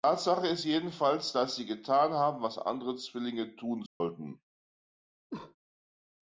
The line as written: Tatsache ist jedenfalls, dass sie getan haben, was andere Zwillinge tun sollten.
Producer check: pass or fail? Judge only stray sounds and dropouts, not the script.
fail